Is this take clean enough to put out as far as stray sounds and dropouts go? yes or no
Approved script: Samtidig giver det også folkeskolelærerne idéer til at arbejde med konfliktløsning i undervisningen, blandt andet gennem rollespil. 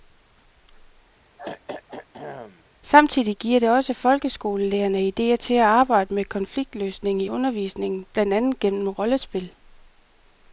no